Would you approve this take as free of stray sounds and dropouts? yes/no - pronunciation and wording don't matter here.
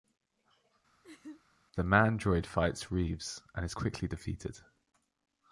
no